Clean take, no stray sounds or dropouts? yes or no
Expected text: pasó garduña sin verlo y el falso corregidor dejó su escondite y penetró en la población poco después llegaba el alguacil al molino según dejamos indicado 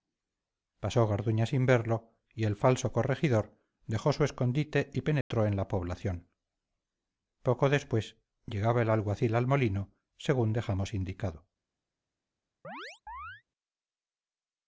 no